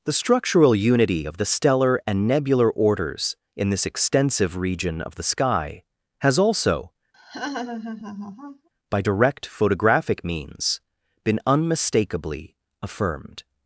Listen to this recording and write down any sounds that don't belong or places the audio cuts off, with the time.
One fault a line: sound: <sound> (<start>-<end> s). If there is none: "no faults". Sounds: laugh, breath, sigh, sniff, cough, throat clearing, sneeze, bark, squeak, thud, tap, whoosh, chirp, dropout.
sound: laugh (7.1-8.7 s)